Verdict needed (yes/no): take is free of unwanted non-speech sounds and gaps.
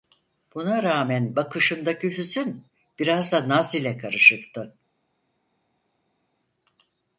yes